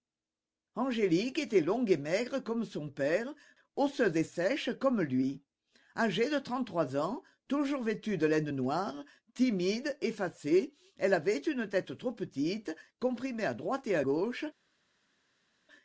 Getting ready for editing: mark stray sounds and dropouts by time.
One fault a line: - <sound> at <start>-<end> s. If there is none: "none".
none